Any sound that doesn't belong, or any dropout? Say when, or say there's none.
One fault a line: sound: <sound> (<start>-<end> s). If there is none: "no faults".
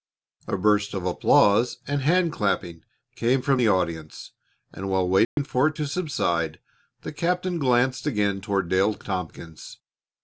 sound: dropout (5.2-5.4 s)